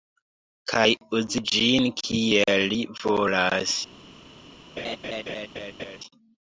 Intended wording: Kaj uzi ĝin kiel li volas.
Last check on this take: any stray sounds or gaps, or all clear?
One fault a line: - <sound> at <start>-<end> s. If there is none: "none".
- laugh at 4.8-6.0 s